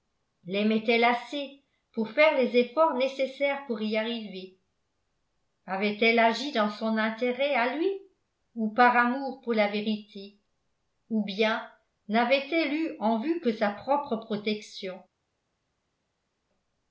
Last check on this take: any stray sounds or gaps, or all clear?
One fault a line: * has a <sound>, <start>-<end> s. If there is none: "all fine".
all fine